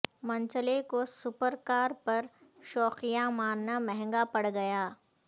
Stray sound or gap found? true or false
false